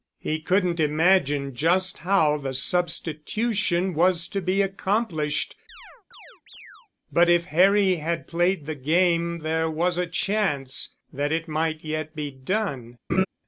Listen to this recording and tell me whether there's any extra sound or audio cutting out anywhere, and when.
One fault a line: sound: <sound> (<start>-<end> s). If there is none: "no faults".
sound: chirp (5.7-6.9 s)
sound: laugh (13.1-13.3 s)